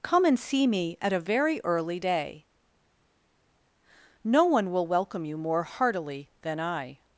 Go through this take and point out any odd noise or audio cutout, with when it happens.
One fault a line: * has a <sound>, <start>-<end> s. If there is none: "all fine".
all fine